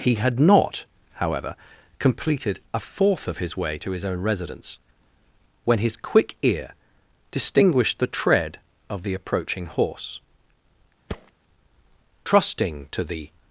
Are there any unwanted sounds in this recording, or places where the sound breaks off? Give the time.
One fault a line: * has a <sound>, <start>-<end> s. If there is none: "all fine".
* has a thud, 11.1-11.3 s